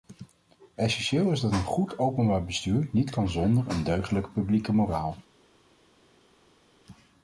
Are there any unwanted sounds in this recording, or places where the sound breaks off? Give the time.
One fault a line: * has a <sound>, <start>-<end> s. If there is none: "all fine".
all fine